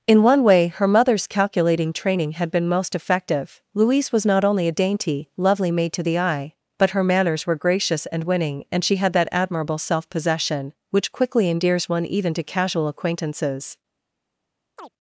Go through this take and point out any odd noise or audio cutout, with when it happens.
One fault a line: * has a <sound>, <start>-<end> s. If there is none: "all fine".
* has a chirp, 14.8-14.9 s